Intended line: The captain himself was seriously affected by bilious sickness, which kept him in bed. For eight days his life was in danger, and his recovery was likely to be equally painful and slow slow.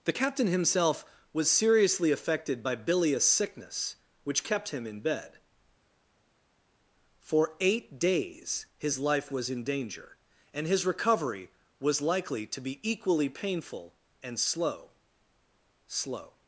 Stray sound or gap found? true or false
false